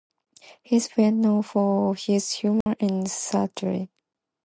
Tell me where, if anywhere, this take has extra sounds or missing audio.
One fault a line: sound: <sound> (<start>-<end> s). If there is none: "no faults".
sound: dropout (2.6-2.7 s)